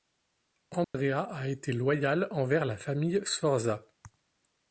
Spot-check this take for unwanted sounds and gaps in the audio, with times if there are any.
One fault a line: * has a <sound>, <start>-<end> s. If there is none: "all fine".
* has a dropout, 0.8-0.9 s